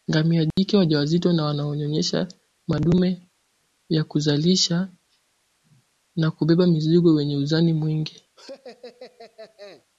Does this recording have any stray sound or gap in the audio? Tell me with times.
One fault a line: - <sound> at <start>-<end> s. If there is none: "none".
- dropout at 0.5-0.6 s
- laugh at 8.4-9.9 s